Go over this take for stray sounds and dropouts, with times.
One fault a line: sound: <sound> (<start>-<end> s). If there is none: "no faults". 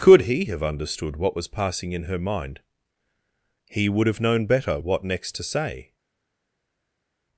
no faults